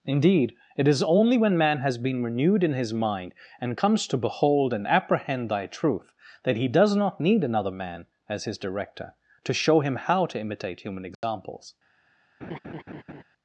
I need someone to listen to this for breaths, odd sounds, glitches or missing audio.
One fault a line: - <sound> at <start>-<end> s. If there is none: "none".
- dropout at 11.1-11.2 s
- laugh at 12.4-13.2 s